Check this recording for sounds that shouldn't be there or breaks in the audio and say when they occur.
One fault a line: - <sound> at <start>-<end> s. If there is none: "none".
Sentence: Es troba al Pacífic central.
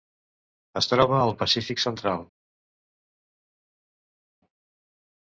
none